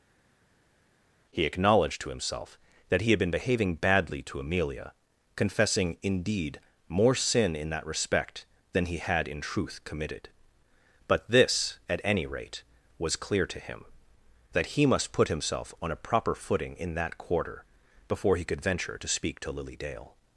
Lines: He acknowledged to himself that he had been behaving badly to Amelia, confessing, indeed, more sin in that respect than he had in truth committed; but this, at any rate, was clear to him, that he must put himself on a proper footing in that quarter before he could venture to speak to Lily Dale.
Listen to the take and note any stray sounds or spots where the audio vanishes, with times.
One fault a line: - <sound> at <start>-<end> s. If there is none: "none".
none